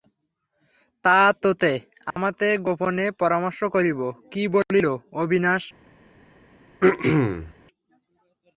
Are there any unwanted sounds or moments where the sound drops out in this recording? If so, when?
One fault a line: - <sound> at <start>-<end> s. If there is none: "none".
- dropout at 2.1-2.2 s
- throat clearing at 6.8-7.5 s